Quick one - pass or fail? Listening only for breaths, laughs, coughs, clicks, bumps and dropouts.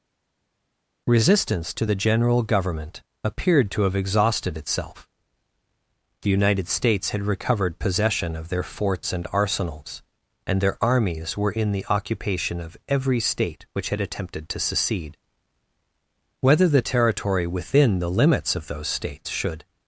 pass